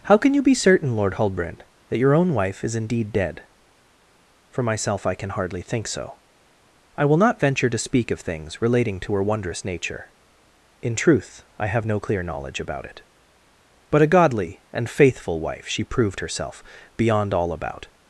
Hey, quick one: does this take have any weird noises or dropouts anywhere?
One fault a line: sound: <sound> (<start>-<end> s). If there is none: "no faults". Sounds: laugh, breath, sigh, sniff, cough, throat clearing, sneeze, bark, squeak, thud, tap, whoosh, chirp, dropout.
no faults